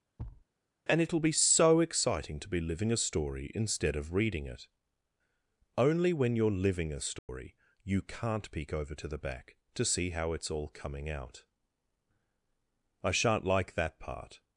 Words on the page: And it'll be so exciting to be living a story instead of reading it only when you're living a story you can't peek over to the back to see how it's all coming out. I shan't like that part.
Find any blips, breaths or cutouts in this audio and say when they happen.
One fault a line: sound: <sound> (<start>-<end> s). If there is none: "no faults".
sound: thud (0.2-0.4 s)
sound: dropout (7.2-7.3 s)